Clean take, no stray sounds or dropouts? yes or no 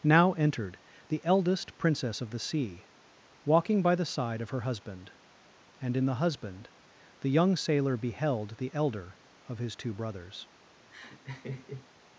no